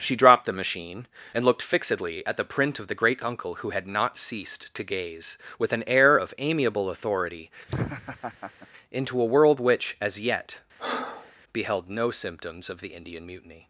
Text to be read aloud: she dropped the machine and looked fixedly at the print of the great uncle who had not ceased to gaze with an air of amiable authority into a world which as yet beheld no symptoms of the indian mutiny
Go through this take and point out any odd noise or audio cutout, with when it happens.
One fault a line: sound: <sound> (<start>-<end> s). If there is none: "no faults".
sound: laugh (7.7-8.7 s)
sound: breath (10.8-11.3 s)